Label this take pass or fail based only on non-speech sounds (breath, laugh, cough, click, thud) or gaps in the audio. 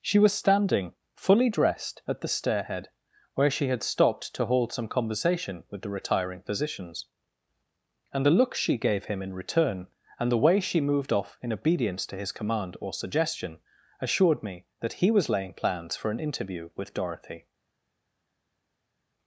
pass